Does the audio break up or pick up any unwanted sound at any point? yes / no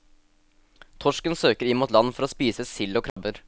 yes